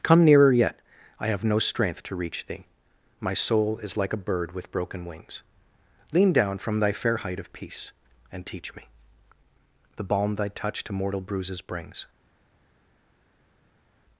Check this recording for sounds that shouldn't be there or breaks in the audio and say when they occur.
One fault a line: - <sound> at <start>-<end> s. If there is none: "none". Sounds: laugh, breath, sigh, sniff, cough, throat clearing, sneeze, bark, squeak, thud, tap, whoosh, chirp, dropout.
none